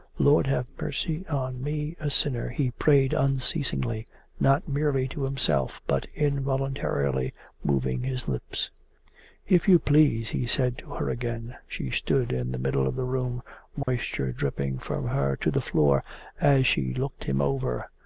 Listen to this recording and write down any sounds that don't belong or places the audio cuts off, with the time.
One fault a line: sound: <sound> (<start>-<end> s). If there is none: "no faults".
sound: dropout (13.8-13.9 s)